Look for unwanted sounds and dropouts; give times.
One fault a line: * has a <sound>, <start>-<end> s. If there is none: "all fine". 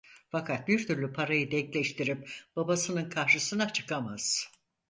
all fine